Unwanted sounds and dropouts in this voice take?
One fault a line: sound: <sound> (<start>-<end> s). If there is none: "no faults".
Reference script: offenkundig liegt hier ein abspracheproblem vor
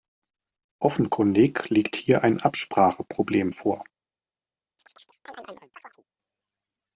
sound: chirp (4.8-6.0 s)